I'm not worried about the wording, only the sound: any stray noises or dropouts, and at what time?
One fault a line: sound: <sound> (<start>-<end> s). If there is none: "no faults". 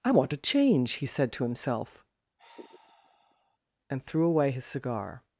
sound: sigh (2.4-3.6 s)